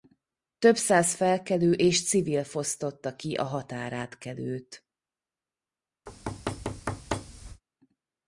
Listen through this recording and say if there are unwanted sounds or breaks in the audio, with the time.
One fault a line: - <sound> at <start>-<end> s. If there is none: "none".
- thud at 6.1-7.6 s